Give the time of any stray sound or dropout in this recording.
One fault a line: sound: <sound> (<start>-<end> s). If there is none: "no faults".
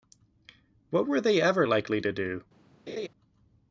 sound: laugh (2.9-3.1 s)